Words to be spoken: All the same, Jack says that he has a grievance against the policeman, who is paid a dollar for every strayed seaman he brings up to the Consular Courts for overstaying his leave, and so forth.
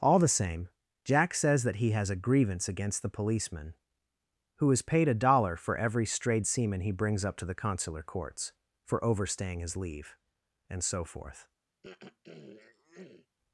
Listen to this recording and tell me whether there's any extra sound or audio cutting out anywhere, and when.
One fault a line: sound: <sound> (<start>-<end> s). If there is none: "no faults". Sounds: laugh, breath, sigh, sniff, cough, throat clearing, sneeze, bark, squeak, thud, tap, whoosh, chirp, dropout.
sound: throat clearing (11.8-13.3 s)